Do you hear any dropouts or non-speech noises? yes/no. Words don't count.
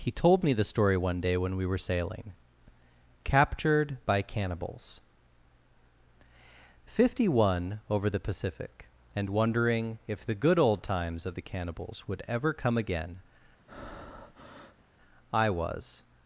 yes